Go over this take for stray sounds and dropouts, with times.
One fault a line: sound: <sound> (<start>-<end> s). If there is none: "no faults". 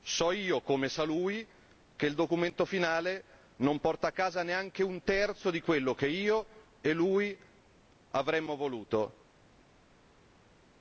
no faults